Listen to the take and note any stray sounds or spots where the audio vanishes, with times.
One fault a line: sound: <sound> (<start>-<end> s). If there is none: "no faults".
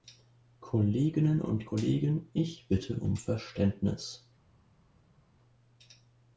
no faults